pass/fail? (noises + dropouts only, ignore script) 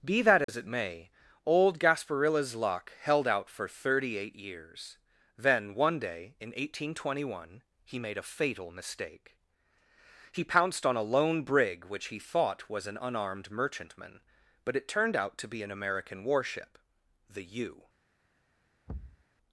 fail